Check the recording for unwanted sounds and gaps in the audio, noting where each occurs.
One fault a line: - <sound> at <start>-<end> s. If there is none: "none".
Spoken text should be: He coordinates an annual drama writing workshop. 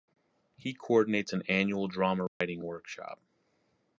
- dropout at 2.3-2.4 s